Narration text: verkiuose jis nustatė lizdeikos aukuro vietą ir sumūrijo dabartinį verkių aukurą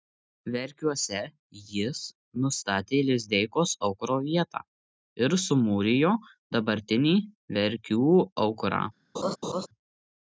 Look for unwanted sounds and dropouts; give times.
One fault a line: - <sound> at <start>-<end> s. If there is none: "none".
- laugh at 9.1-9.7 s